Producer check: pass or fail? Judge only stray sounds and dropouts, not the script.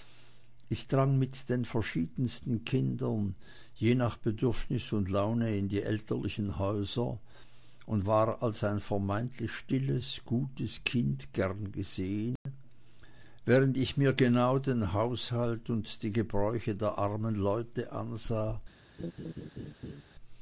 fail